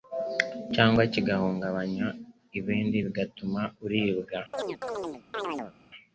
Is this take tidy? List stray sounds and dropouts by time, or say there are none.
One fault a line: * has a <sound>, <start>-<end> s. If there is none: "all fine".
* has a chirp, 4.5-5.7 s